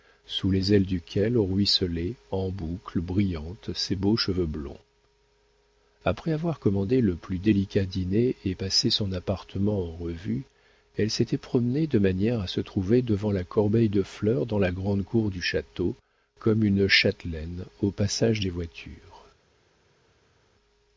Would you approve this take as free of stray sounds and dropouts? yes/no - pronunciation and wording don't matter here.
yes